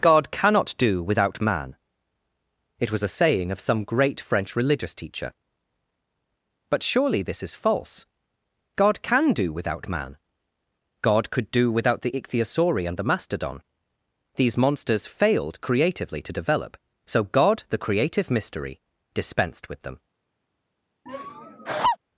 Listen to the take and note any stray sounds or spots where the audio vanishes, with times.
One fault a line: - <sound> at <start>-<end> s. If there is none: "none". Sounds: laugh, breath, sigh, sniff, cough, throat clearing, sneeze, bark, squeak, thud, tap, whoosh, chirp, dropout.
- laugh at 21.1-22.0 s